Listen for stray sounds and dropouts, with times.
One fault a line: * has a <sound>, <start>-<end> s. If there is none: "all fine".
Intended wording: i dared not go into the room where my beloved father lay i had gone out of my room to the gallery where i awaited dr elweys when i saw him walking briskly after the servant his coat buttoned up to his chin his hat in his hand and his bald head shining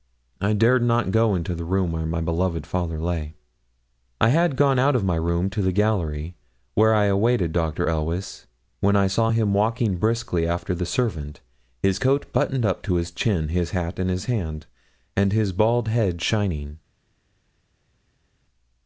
all fine